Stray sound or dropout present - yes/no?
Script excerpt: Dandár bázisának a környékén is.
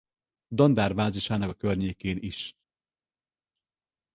no